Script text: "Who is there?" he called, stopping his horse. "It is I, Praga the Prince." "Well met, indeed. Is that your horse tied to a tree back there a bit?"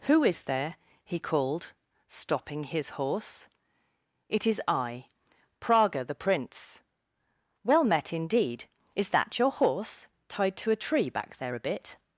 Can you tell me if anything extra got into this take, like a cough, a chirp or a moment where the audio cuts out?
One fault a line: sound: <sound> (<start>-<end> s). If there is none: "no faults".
no faults